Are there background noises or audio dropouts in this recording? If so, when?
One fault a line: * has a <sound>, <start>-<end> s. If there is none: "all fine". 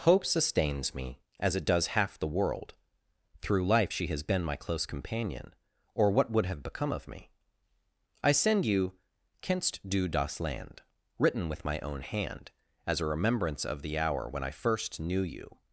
all fine